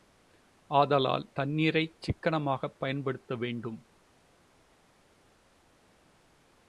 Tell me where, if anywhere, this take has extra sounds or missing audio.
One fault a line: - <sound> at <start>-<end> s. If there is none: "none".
none